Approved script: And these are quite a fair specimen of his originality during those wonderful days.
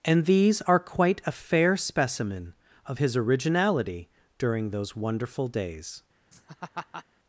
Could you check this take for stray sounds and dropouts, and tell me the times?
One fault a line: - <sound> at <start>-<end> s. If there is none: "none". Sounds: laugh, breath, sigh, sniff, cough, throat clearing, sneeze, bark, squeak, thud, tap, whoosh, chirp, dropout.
- laugh at 6.3-7.1 s